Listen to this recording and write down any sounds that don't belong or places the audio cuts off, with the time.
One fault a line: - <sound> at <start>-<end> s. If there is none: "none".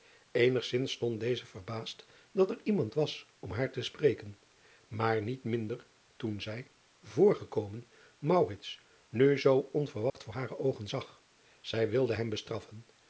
- dropout at 10.1-10.1 s